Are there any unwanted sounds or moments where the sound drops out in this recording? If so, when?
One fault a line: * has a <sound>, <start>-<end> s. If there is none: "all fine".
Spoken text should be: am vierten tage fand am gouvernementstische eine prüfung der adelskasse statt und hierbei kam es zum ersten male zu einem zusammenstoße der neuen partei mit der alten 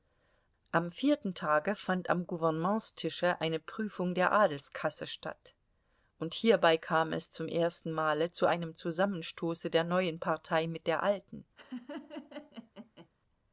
* has a laugh, 11.6-13.1 s